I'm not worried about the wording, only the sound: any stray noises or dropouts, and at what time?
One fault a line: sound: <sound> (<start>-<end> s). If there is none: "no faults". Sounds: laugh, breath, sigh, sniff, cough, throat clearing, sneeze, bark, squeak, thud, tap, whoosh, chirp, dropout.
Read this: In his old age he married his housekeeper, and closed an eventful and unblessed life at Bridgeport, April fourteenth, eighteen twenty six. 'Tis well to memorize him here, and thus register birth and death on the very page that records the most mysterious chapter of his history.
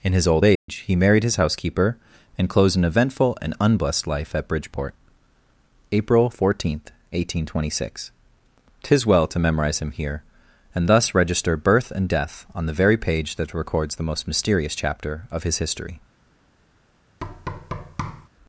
sound: dropout (0.6-0.7 s)
sound: thud (17.2-18.3 s)